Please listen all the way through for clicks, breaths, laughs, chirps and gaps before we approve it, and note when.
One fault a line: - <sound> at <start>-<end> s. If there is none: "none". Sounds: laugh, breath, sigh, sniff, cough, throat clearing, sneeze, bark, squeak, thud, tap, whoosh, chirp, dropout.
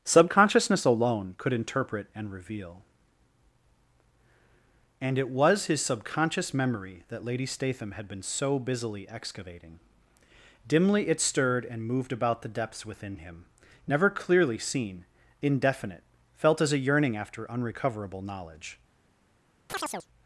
- chirp at 19.7-20.1 s